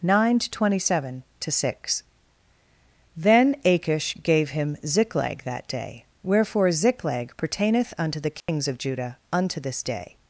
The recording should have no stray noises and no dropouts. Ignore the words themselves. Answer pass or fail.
fail